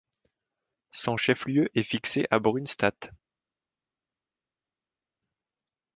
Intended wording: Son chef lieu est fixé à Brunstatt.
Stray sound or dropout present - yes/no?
no